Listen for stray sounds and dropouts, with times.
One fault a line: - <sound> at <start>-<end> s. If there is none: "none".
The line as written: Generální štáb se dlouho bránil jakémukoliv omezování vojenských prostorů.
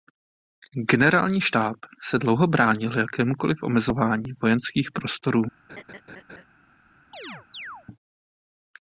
- laugh at 5.7-6.4 s
- chirp at 7.1-7.9 s